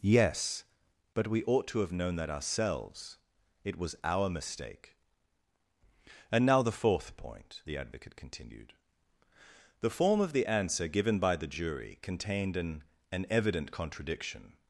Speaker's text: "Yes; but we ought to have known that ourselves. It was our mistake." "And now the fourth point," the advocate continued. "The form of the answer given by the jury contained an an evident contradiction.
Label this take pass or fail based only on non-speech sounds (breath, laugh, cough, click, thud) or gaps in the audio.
pass